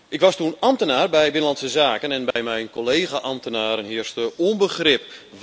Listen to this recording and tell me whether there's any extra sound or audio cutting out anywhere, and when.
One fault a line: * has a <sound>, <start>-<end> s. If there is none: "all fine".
* has a dropout, 2.3-2.4 s